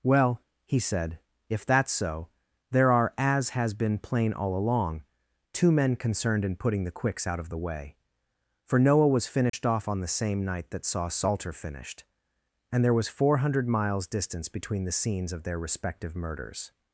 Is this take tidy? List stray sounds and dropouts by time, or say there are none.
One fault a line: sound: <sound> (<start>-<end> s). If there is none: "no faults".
sound: dropout (9.5-9.5 s)